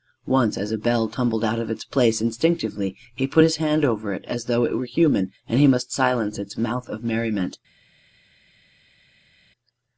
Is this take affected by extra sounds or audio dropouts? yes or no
no